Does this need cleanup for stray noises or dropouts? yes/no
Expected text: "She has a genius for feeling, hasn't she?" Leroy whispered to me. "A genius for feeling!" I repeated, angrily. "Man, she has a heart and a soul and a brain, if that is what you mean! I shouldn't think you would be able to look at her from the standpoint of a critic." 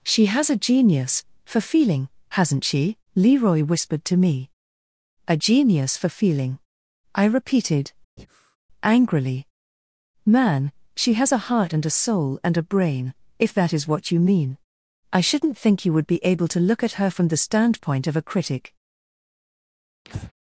yes